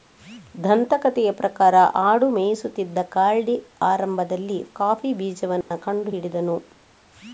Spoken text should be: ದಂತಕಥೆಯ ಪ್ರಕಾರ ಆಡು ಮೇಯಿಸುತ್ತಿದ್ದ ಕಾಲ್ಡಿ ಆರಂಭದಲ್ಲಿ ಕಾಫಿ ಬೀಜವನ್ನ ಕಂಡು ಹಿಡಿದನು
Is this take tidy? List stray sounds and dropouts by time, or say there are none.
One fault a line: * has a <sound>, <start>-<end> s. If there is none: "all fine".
* has a dropout, 5.6-5.7 s